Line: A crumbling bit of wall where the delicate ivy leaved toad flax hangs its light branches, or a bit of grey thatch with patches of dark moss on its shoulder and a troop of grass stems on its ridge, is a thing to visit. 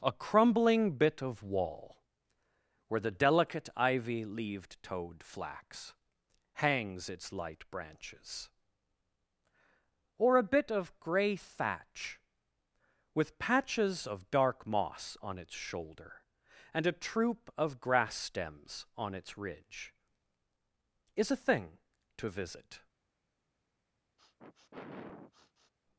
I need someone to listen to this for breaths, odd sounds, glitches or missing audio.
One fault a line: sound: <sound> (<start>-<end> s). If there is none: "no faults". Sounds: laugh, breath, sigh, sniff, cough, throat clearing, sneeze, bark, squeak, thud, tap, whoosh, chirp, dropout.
sound: sniff (24.2-25.7 s)